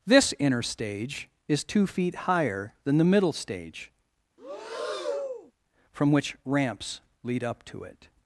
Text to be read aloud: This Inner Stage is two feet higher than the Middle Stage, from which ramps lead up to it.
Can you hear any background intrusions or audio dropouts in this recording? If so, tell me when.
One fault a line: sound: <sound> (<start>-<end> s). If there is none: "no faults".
sound: breath (4.4-5.5 s)